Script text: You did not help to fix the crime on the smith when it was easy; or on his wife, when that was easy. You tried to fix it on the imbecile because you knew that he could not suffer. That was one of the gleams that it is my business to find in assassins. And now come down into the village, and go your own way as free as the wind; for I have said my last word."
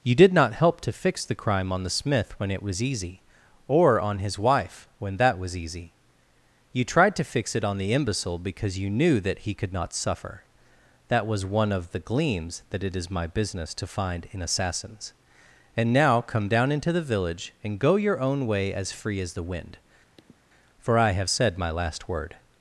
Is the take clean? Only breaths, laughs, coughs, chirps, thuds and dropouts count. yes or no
no